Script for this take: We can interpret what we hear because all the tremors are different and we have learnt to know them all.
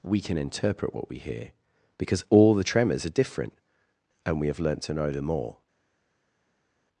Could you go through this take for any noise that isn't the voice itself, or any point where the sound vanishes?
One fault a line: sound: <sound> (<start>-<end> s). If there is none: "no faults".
no faults